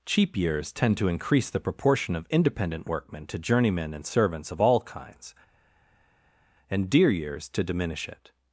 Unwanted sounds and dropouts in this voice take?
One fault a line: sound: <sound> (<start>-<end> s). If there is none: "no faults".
no faults